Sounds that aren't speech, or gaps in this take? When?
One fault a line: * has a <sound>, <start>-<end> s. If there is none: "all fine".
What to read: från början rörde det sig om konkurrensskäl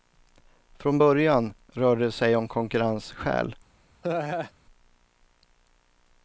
* has a laugh, 4.0-4.5 s